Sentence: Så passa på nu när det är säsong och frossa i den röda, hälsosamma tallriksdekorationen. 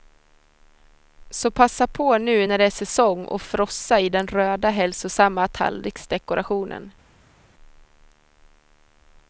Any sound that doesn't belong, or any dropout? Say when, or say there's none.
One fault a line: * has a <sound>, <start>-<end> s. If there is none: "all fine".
all fine